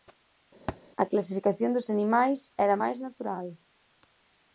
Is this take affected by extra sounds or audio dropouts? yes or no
yes